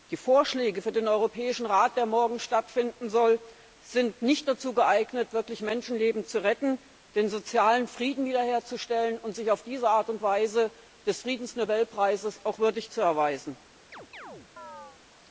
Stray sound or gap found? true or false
true